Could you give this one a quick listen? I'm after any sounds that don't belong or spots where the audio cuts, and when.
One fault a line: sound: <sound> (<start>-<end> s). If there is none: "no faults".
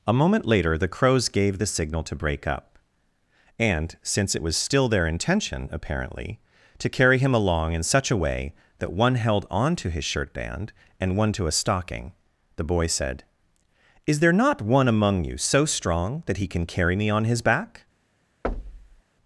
sound: thud (18.4-19.0 s)